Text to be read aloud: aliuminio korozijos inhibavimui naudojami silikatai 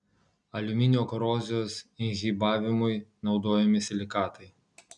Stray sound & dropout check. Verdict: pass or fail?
pass